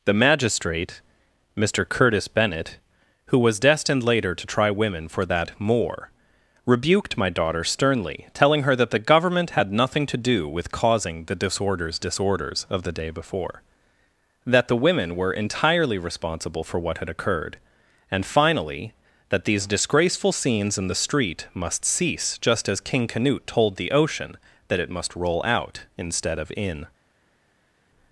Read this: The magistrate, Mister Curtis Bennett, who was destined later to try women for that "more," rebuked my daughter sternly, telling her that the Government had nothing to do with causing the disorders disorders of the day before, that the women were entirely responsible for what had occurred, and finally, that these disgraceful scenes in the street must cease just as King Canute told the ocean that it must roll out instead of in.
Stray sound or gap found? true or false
false